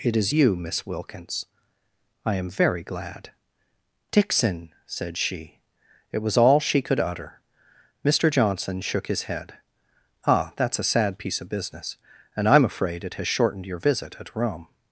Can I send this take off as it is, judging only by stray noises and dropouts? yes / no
yes